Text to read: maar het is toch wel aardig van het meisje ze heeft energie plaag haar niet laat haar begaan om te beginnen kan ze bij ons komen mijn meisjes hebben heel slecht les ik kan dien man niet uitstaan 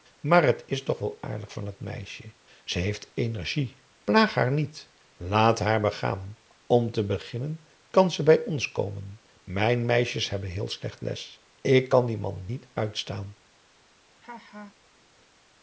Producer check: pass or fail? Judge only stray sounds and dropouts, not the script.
fail